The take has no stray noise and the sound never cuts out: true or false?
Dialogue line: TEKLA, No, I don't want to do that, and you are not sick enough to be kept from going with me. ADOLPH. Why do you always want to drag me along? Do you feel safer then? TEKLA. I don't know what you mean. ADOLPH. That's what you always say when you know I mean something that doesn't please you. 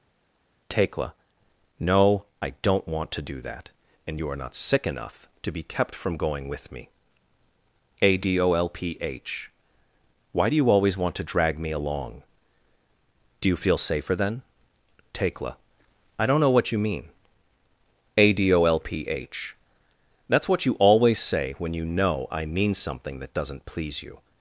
true